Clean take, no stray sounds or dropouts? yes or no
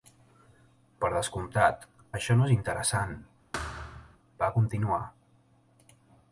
no